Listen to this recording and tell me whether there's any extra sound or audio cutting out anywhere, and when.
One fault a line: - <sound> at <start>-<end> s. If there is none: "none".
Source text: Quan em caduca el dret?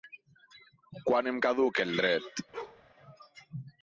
- bark at 2.5-2.8 s